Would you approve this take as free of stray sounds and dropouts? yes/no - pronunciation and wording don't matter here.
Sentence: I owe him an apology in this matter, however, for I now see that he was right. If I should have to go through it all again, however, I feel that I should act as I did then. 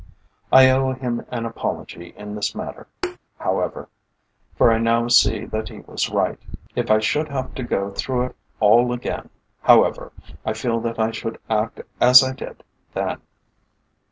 no